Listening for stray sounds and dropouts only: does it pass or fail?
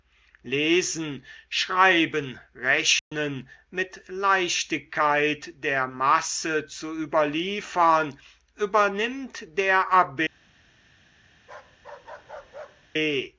fail